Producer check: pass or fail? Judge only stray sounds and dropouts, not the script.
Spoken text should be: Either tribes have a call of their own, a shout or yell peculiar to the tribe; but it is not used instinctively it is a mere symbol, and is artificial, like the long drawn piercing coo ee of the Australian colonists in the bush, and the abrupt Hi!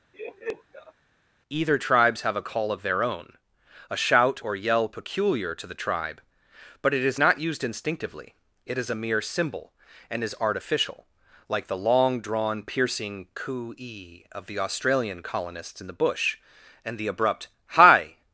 fail